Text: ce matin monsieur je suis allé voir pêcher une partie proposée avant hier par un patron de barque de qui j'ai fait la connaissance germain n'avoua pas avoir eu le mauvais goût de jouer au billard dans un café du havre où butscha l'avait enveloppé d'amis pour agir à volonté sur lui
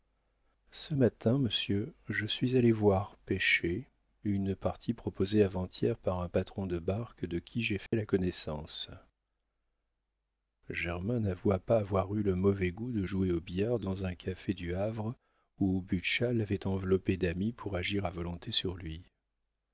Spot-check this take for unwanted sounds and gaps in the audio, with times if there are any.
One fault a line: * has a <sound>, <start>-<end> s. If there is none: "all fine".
* has a dropout, 7.9-7.9 s